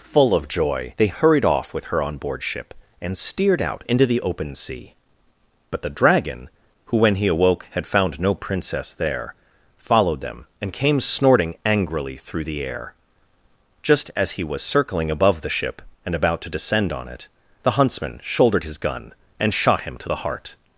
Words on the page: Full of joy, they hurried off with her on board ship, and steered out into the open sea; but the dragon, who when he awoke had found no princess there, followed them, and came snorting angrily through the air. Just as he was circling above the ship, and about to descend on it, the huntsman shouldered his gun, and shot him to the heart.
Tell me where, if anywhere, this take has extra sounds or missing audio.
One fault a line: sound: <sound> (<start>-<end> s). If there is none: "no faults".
no faults